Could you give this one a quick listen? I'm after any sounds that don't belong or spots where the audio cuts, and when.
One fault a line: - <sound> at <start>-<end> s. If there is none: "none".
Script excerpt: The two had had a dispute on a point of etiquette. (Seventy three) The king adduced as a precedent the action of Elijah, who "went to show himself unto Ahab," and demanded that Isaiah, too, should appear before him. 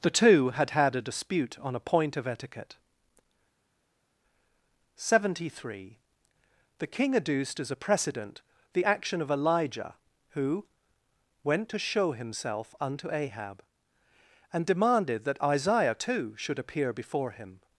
none